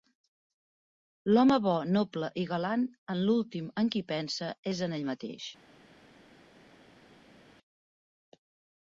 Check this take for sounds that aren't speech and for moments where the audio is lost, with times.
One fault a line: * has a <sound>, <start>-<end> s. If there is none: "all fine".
all fine